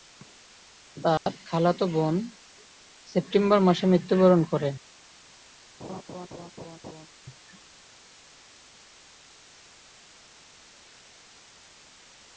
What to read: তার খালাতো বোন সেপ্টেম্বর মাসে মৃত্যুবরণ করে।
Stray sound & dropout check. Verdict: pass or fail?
fail